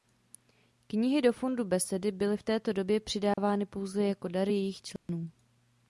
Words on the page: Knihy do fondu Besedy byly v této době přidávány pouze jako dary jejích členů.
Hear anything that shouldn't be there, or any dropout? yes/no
yes